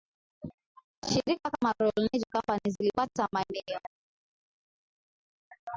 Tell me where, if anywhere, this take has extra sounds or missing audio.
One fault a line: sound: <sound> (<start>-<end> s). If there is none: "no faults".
no faults